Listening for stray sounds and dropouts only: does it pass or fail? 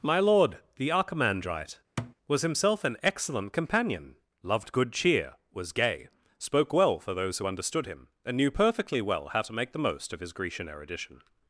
fail